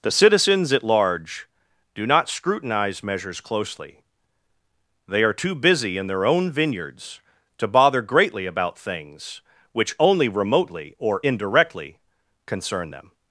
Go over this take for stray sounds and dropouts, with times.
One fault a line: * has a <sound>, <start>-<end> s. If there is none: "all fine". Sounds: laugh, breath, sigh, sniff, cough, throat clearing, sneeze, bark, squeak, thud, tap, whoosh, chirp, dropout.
all fine